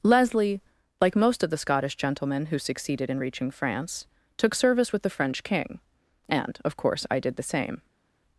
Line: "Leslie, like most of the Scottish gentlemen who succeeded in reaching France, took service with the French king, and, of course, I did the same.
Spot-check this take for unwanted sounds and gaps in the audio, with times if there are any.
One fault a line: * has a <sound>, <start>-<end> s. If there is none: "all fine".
all fine